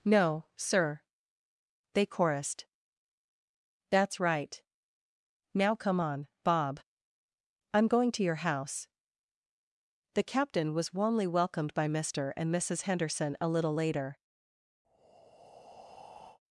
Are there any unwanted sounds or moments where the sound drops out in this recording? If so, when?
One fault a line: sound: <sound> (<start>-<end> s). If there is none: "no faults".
sound: breath (14.8-16.4 s)